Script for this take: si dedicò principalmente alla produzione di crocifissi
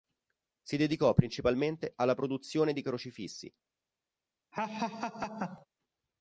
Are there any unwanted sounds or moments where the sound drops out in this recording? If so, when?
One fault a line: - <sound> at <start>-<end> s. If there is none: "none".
- laugh at 4.5-5.7 s